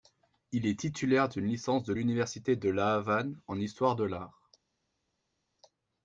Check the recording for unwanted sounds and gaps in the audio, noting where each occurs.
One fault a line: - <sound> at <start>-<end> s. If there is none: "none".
none